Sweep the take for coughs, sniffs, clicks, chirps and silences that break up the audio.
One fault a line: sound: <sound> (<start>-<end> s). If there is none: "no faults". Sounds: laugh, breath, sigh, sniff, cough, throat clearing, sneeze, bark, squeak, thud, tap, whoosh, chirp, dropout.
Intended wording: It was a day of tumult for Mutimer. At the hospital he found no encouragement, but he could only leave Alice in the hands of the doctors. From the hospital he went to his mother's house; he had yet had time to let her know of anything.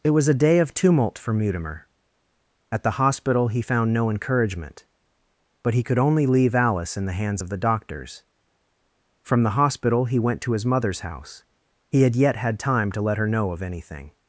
no faults